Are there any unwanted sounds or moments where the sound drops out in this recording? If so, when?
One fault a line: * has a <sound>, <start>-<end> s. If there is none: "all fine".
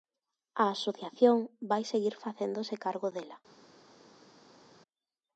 all fine